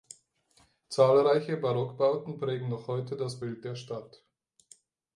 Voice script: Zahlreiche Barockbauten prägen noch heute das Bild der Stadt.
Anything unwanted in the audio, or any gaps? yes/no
no